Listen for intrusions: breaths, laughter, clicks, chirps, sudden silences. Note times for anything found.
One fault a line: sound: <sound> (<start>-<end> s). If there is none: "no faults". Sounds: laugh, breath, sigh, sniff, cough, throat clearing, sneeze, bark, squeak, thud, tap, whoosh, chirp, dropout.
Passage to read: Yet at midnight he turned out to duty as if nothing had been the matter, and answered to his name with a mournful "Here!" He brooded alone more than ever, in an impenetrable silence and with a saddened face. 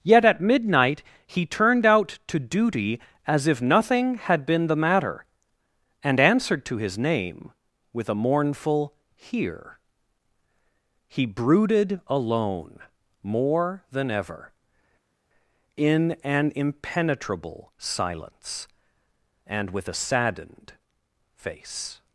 no faults